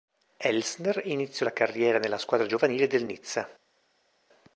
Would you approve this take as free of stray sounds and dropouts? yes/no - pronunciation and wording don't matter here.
yes